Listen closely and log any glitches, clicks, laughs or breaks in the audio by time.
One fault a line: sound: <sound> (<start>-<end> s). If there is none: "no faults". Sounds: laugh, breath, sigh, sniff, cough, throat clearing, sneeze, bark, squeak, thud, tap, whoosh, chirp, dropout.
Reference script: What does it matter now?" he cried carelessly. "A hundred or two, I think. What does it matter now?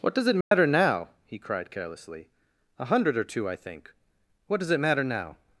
sound: dropout (0.4-0.5 s)